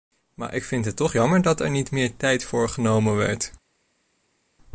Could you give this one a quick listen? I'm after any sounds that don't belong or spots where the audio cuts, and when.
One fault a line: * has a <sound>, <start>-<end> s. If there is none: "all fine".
all fine